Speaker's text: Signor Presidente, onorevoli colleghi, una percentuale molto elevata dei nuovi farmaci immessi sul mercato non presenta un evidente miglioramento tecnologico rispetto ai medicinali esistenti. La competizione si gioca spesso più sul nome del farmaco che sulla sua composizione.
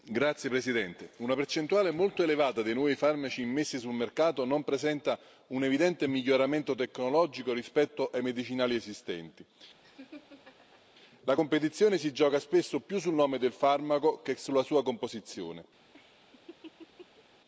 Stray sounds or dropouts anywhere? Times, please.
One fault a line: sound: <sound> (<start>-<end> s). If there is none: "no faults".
sound: laugh (9.8-10.8 s)
sound: laugh (15.9-17.2 s)